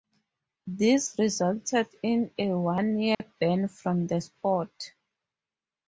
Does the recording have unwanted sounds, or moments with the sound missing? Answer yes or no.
yes